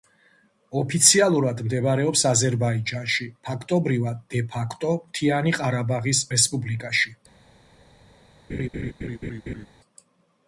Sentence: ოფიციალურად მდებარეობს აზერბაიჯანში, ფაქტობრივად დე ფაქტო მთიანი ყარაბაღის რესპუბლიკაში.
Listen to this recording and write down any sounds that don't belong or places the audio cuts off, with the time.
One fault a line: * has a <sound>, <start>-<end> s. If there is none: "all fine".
* has a laugh, 8.5-9.7 s